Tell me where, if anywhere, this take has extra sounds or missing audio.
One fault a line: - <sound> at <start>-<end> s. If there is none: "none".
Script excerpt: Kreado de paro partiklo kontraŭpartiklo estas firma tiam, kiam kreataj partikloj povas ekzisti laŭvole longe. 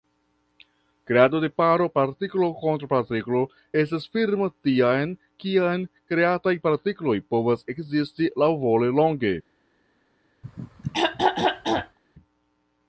- throat clearing at 10.4-12.0 s